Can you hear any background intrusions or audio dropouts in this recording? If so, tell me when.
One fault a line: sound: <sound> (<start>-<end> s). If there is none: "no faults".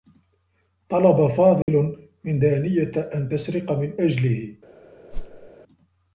sound: dropout (1.6-1.7 s)
sound: whoosh (5.1-5.5 s)